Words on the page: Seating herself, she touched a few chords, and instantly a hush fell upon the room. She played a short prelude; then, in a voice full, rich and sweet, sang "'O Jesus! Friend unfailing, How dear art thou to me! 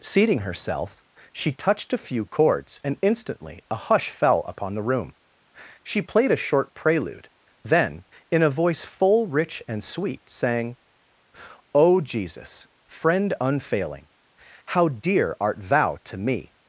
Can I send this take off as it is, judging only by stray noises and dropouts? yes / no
yes